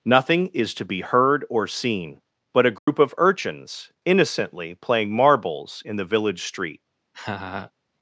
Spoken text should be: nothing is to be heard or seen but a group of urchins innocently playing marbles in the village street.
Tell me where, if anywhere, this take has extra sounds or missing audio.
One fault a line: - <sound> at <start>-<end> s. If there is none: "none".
- dropout at 2.8-2.9 s
- laugh at 7.1-7.7 s